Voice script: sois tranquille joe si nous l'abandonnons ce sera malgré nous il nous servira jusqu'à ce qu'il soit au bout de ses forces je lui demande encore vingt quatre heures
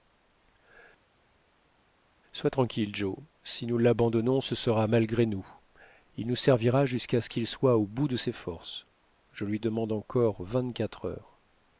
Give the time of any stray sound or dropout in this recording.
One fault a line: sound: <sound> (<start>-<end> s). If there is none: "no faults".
no faults